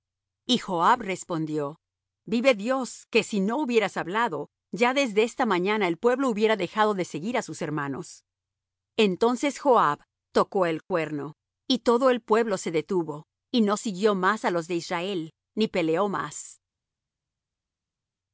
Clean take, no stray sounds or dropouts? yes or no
yes